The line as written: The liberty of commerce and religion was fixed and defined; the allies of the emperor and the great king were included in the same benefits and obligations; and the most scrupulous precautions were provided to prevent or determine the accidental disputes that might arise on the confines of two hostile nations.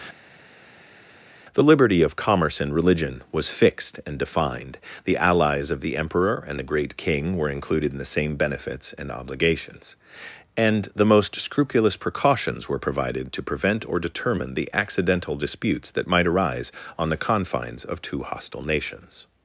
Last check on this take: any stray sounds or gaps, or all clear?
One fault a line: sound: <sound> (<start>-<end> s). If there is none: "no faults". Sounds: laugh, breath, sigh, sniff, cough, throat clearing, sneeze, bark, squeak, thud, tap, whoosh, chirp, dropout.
no faults